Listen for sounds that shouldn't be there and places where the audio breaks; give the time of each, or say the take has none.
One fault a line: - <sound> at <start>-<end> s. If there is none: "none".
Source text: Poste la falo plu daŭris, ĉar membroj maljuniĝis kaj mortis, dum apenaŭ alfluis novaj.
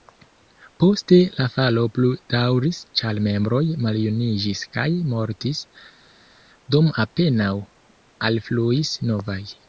none